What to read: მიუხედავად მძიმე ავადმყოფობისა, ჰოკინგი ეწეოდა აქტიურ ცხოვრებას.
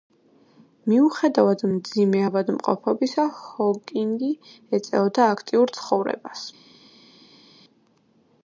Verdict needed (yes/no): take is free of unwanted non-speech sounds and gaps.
yes